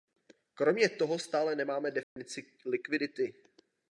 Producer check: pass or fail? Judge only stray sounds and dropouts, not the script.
fail